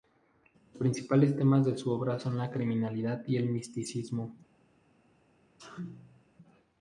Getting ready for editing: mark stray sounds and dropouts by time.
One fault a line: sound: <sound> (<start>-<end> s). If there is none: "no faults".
sound: sneeze (5.6-6.2 s)